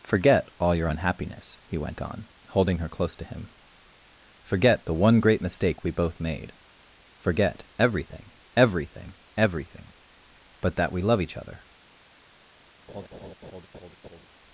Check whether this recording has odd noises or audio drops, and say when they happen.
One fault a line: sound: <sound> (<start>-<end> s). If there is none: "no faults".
sound: laugh (12.9-14.3 s)